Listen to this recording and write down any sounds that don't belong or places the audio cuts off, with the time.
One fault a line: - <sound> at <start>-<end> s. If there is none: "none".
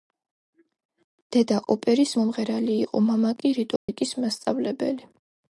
- dropout at 3.8-3.9 s